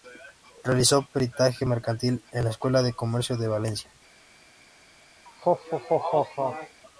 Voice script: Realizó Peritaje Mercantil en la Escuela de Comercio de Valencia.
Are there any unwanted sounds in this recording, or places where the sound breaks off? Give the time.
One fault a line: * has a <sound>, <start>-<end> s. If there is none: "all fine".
* has a laugh, 5.3-6.8 s